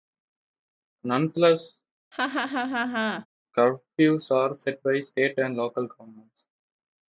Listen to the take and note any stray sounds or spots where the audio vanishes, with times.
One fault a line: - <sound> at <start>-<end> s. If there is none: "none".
- laugh at 2.1-3.3 s